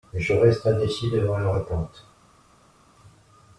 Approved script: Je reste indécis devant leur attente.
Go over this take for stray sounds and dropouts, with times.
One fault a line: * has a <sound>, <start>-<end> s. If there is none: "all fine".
all fine